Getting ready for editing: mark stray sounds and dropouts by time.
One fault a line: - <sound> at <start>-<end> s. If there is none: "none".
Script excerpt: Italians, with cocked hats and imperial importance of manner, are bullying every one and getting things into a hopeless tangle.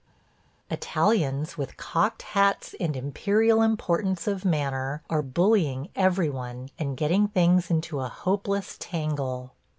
none